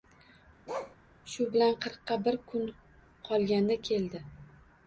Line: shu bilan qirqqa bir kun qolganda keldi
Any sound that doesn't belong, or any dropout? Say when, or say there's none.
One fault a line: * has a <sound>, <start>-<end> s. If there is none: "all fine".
* has a bark, 0.7-1.0 s